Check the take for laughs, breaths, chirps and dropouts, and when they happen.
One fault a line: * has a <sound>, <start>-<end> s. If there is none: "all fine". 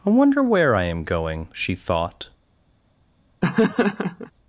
* has a laugh, 3.4-4.3 s